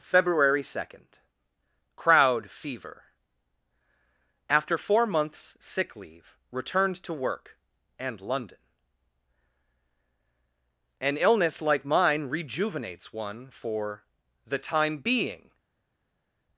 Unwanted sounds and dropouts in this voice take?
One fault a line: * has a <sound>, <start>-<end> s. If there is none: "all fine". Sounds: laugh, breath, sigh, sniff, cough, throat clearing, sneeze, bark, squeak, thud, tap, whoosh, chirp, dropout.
all fine